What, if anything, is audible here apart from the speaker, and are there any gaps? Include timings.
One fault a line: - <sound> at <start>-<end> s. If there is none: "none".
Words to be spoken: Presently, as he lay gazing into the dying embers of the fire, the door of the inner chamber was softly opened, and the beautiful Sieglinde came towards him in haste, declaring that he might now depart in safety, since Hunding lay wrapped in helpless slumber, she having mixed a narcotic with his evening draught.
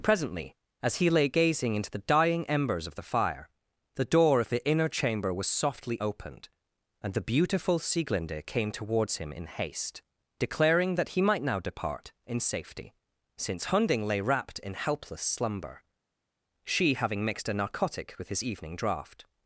none